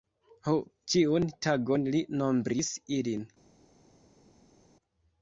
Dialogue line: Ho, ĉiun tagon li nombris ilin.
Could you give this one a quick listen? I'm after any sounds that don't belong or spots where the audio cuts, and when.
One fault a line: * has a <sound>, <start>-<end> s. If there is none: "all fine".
all fine